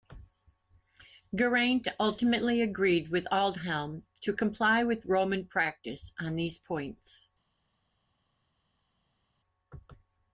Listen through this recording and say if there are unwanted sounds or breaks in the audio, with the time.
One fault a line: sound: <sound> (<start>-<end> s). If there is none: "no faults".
no faults